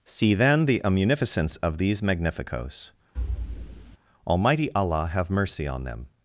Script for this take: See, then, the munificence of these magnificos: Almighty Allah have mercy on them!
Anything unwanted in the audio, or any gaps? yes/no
yes